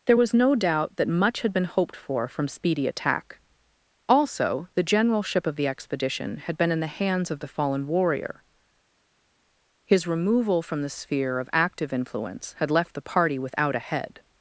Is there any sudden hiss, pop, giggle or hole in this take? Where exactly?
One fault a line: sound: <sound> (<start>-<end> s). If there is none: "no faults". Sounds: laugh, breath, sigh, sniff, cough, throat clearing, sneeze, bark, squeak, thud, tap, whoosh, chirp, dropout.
no faults